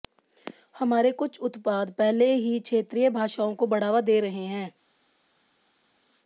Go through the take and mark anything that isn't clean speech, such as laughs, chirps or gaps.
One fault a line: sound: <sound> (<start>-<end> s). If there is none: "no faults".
no faults